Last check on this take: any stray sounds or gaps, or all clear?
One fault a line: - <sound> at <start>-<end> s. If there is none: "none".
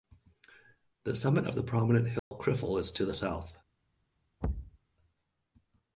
- dropout at 2.2-2.3 s
- thud at 4.4-4.8 s